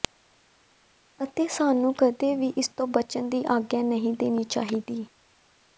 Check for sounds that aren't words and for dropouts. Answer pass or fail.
pass